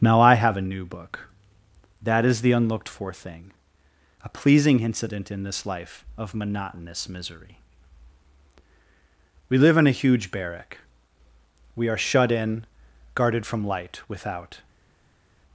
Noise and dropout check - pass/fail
pass